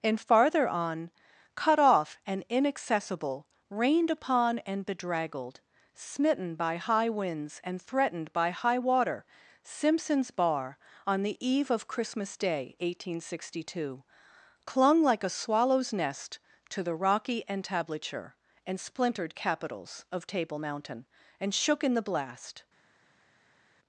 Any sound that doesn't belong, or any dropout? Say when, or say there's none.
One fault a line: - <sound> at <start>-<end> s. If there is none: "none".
none